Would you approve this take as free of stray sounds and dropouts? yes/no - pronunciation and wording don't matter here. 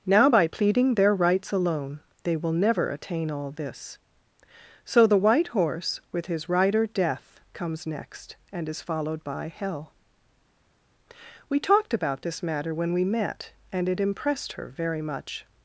yes